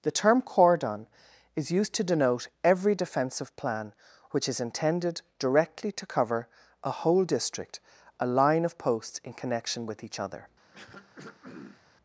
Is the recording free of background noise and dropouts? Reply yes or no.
no